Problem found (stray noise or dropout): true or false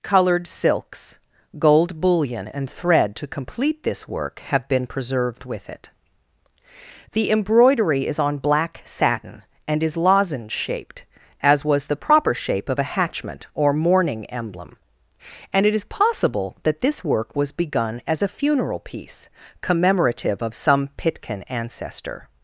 false